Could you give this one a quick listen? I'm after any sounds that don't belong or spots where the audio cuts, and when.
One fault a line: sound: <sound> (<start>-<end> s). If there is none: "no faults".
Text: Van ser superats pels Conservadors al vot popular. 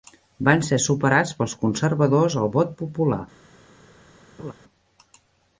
sound: laugh (4.4-4.5 s)